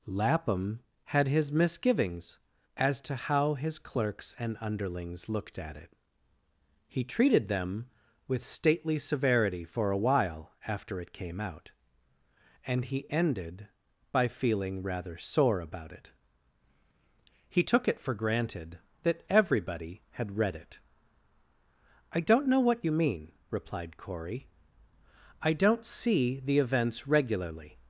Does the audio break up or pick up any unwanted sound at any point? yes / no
no